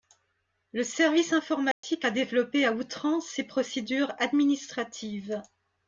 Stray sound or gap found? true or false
true